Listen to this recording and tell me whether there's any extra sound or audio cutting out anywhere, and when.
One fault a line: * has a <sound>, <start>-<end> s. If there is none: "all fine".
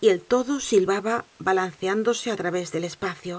all fine